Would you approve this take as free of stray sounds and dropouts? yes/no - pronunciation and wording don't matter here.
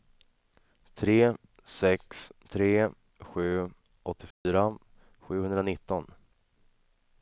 no